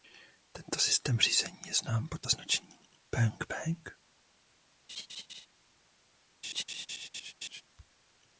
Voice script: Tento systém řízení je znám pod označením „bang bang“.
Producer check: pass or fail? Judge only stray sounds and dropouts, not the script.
fail